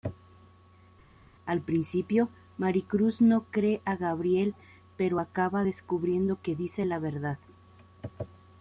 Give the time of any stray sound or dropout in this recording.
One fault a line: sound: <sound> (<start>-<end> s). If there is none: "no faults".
no faults